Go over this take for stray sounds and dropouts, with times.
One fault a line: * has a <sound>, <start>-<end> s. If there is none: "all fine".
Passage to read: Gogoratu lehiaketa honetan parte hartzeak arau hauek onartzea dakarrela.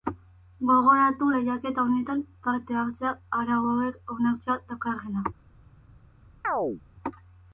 * has a chirp, 6.4-6.8 s